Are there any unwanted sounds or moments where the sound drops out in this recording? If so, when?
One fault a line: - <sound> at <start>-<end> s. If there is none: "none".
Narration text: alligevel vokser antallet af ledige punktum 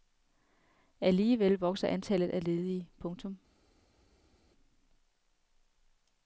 none